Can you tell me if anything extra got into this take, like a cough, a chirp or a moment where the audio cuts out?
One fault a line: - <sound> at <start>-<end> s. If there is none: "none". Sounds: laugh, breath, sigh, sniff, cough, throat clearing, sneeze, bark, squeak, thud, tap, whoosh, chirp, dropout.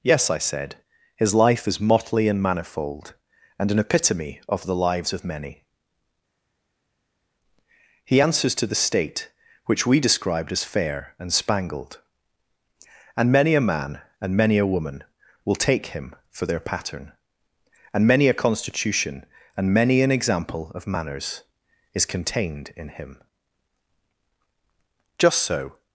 none